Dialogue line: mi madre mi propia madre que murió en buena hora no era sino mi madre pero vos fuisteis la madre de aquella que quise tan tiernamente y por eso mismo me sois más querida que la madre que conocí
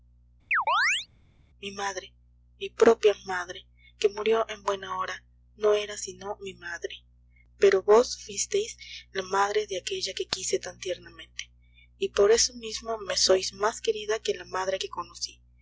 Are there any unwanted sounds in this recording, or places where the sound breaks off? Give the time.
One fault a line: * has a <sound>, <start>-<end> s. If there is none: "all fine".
* has a chirp, 0.5-1.1 s